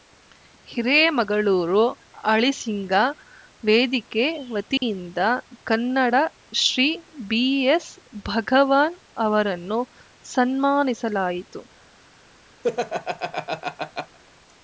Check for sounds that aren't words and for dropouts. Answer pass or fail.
fail